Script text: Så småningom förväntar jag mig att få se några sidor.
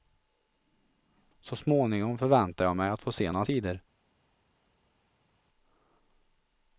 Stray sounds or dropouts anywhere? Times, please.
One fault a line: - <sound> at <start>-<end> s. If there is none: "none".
none